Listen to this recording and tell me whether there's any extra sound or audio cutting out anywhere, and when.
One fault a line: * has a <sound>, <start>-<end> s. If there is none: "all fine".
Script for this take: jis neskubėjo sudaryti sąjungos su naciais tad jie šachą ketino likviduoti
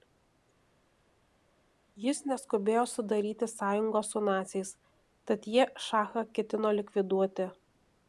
all fine